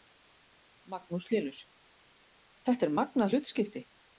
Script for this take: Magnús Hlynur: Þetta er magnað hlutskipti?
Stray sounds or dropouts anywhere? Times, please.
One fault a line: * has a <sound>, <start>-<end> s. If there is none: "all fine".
all fine